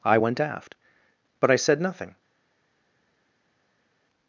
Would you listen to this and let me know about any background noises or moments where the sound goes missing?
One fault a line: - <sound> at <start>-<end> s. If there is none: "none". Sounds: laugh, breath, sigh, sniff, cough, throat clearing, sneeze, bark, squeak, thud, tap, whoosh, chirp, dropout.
none